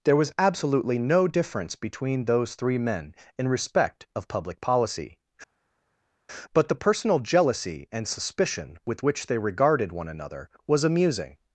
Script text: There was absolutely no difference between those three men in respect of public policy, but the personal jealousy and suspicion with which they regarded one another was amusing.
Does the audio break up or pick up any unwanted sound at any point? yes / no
no